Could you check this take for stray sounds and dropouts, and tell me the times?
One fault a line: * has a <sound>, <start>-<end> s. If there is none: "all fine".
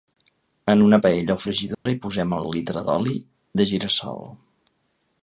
* has a dropout, 1.7-1.9 s